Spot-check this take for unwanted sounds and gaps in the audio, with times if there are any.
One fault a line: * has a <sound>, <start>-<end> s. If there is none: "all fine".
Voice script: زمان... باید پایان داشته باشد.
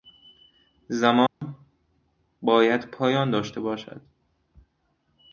* has a dropout, 1.3-1.4 s